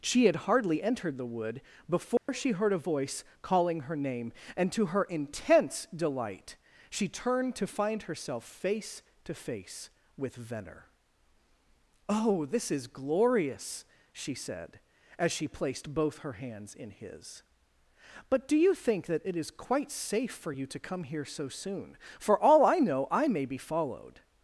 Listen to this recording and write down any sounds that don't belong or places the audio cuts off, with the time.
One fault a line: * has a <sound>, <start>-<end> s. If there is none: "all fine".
* has a dropout, 2.2-2.3 s